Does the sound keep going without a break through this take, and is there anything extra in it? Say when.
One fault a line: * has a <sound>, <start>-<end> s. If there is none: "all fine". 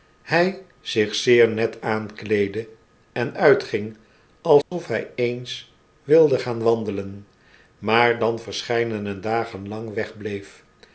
* has a dropout, 4.6-4.7 s